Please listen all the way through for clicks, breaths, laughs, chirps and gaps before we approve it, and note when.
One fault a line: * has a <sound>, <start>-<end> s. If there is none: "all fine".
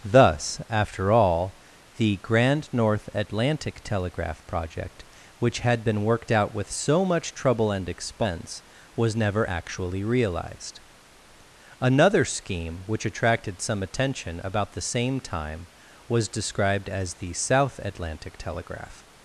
all fine